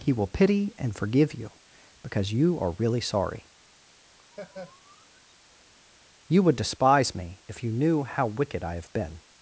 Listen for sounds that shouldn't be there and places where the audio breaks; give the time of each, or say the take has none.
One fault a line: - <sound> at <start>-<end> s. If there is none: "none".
- laugh at 4.3-5.3 s